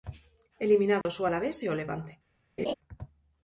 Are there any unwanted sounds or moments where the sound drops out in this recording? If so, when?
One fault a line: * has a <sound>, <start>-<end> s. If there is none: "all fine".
* has a dropout, 1.0-1.1 s
* has a laugh, 2.6-2.7 s